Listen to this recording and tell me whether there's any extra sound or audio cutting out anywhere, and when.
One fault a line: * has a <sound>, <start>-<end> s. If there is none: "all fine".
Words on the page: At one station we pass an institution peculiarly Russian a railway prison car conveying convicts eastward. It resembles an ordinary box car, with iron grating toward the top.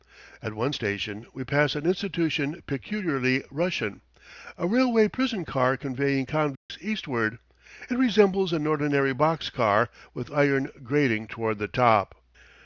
* has a dropout, 6.6-6.7 s